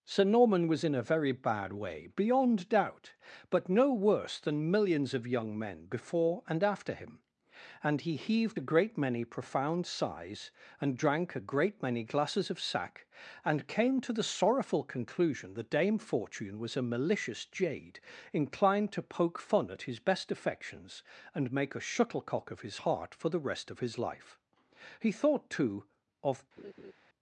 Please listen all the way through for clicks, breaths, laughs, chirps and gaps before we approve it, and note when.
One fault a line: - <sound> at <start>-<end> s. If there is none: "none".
- laugh at 26.6-26.9 s